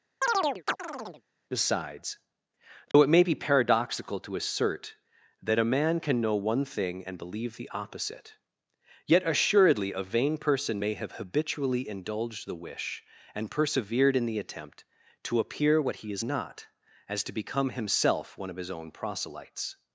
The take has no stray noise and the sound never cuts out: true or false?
false